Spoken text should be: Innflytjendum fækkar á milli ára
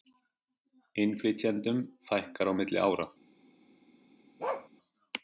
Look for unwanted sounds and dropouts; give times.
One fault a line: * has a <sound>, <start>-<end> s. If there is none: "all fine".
* has a bark, 4.4-4.7 s